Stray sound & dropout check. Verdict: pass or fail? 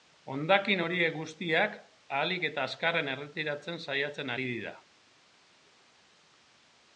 pass